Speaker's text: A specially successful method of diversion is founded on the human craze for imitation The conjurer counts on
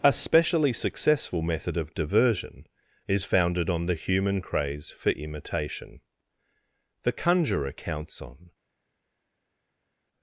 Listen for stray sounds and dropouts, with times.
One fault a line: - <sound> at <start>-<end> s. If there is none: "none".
none